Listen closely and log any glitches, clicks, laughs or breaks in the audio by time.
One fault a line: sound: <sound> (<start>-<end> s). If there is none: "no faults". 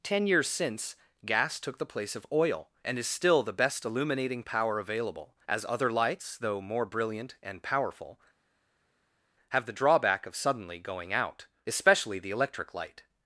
no faults